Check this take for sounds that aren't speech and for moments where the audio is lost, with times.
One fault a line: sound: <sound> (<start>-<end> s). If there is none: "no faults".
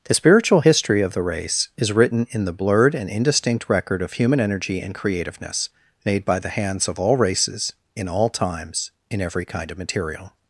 no faults